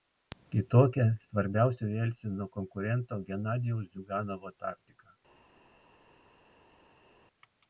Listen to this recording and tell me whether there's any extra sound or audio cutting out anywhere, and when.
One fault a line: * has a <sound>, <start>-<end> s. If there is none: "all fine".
all fine